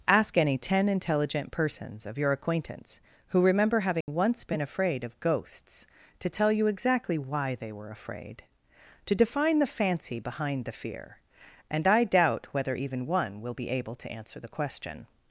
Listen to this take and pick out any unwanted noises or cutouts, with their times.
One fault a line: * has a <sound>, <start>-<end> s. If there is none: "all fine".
* has a dropout, 4.0-4.1 s